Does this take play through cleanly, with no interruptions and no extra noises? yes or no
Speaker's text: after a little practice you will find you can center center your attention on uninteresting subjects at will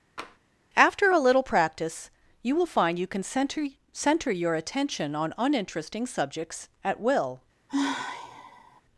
no